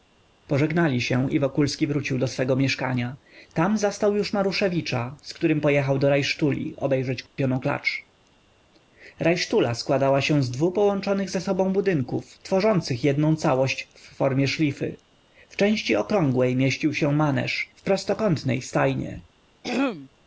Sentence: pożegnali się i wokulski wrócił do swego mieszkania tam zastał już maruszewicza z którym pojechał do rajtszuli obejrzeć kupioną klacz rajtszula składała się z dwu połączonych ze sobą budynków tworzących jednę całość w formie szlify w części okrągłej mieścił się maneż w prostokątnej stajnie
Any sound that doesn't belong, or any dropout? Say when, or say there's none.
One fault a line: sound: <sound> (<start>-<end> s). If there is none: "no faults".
sound: dropout (7.3-7.4 s)
sound: throat clearing (19.6-20.1 s)